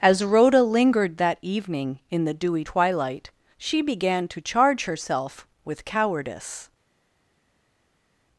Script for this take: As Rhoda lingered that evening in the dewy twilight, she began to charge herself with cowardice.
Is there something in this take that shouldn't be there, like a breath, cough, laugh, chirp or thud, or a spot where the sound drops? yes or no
no